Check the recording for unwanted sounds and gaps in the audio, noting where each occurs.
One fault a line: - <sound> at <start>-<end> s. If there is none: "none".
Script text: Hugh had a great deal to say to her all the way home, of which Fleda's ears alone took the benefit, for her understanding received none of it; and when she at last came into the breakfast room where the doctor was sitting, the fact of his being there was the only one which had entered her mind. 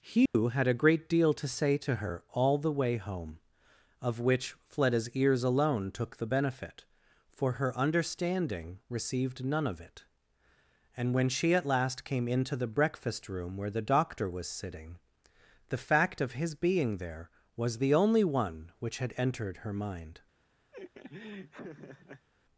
- dropout at 0.3-0.3 s
- laugh at 20.7-22.3 s